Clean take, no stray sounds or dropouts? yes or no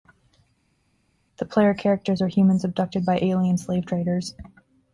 yes